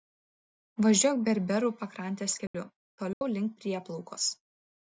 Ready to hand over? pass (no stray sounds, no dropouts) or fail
fail